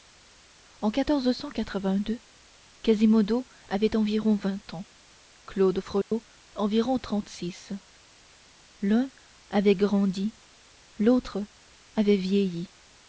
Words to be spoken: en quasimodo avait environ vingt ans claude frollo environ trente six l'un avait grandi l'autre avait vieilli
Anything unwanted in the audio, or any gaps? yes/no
yes